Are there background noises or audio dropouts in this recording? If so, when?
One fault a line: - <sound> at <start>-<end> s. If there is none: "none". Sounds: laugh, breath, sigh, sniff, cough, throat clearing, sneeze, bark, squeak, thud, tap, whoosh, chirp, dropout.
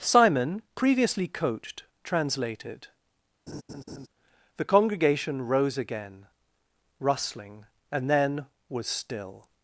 - laugh at 3.5-4.1 s